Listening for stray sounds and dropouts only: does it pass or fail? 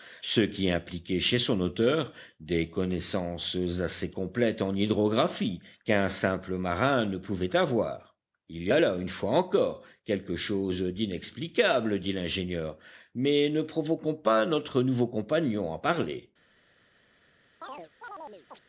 fail